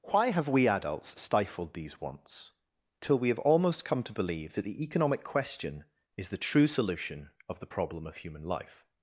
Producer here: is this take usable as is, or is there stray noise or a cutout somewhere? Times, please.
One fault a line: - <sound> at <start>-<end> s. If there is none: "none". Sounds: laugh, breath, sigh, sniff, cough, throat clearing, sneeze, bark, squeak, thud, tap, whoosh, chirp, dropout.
none